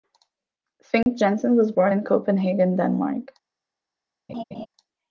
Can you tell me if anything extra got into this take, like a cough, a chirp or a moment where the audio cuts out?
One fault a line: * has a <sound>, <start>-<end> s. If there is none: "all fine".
* has a dropout, 1.0-1.1 s
* has a laugh, 4.3-4.7 s